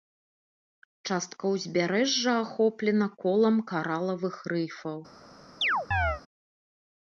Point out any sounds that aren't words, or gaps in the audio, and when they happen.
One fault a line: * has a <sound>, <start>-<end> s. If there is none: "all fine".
* has a chirp, 5.6-6.2 s